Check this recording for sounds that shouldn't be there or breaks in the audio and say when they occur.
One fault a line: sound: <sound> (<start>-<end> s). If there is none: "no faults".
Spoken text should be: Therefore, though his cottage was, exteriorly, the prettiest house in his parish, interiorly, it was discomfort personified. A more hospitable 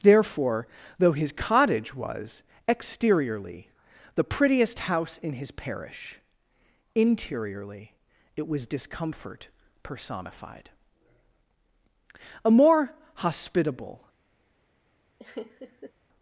sound: laugh (15.2-15.9 s)